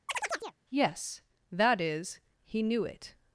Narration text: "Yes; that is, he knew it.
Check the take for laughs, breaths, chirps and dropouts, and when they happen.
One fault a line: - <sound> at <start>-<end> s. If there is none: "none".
- chirp at 0.1-0.6 s